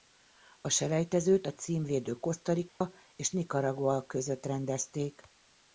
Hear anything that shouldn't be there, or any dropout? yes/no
yes